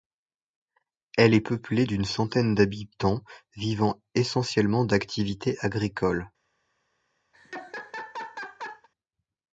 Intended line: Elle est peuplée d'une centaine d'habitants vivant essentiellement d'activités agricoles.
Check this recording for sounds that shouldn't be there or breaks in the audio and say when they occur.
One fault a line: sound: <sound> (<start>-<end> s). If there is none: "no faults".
sound: laugh (7.3-8.9 s)